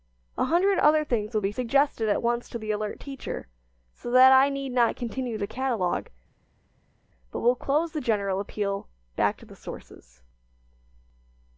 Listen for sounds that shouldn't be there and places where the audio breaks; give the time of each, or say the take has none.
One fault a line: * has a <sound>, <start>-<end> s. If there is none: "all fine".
all fine